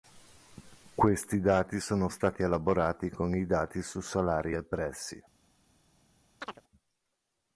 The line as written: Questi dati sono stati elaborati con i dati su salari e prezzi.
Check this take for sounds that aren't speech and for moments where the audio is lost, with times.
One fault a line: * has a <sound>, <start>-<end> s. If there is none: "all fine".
* has a chirp, 6.4-6.6 s